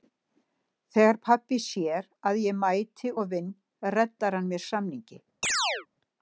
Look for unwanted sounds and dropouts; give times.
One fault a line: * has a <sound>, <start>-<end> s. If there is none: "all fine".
* has a chirp, 5.4-5.9 s